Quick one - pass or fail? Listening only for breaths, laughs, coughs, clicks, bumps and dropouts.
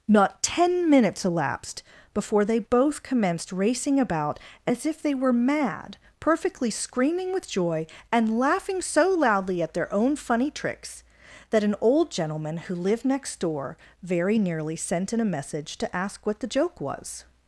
pass